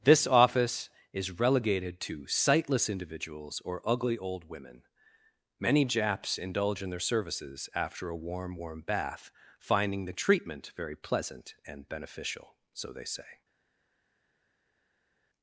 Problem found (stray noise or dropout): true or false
false